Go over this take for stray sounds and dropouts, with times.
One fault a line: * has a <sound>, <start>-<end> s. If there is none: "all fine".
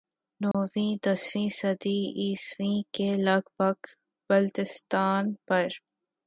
* has a dropout, 0.5-0.5 s